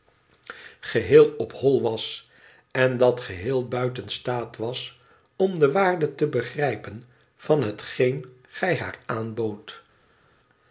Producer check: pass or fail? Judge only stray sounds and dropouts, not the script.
pass